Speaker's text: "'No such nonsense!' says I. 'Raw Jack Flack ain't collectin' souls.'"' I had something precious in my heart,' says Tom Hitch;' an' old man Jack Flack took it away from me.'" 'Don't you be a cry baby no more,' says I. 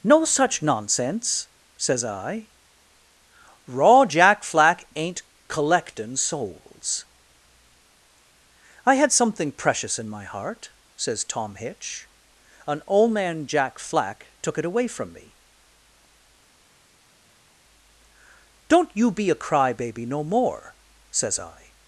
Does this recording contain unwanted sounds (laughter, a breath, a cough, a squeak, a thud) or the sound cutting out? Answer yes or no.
no